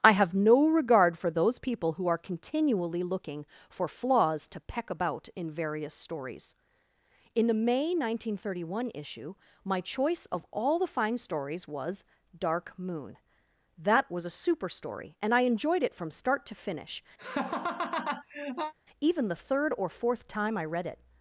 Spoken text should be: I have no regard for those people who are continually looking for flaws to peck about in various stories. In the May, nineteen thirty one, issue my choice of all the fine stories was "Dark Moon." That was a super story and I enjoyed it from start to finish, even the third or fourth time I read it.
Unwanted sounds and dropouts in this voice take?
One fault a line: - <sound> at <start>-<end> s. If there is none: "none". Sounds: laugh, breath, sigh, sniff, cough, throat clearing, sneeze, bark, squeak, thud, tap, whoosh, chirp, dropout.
- laugh at 17.2-18.7 s